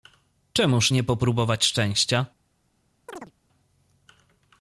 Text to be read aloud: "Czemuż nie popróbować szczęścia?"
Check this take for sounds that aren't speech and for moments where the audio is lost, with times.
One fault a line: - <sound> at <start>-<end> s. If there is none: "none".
- chirp at 3.1-3.3 s